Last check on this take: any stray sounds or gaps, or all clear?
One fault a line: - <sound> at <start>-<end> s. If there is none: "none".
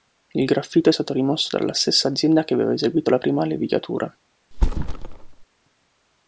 - thud at 4.5-5.4 s